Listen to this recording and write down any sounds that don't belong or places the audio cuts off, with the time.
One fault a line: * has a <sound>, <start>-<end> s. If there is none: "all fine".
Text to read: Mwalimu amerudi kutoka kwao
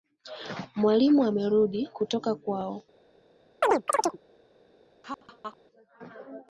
* has a chirp, 3.6-4.2 s
* has a laugh, 5.0-5.6 s